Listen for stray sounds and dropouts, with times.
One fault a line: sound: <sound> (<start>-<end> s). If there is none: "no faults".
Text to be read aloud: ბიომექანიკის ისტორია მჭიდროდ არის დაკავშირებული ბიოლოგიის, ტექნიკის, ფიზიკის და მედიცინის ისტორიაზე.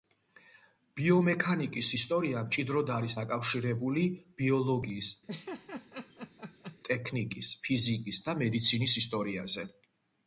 sound: laugh (5.3-6.8 s)